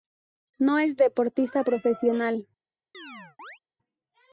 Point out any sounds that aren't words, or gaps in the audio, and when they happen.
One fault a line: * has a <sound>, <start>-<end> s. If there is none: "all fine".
* has a chirp, 2.9-3.6 s